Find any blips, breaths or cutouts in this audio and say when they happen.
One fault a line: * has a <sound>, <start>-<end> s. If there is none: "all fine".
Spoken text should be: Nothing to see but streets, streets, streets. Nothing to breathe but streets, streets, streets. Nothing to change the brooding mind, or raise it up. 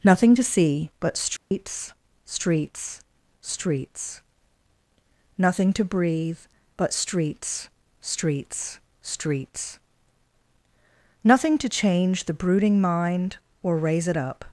* has a dropout, 1.4-1.5 s